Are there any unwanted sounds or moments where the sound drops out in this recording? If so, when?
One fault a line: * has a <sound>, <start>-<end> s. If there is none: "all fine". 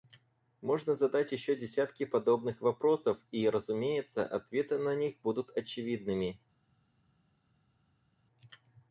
all fine